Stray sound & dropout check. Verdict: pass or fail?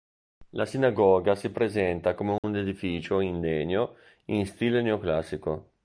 fail